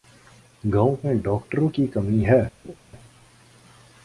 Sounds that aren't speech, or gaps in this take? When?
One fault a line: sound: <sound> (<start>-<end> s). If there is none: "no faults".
sound: laugh (2.6-2.8 s)